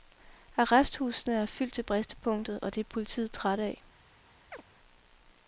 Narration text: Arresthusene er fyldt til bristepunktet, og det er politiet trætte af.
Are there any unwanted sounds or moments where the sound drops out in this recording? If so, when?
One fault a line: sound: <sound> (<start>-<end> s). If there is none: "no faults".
sound: chirp (4.5-4.6 s)